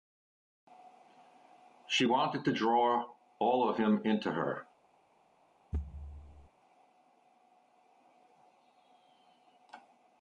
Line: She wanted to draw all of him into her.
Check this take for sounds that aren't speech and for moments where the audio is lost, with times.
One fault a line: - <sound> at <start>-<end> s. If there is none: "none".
- thud at 5.7-6.5 s